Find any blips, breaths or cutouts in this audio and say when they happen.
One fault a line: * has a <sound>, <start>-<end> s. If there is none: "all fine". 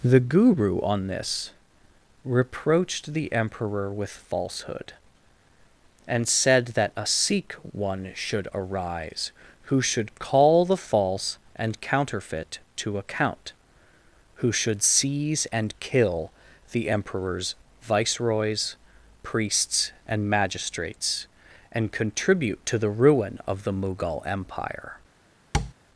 * has a tap, 25.5-25.7 s